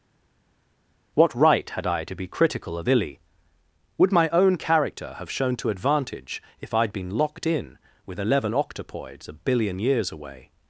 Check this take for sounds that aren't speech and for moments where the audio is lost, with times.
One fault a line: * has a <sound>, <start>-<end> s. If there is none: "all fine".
all fine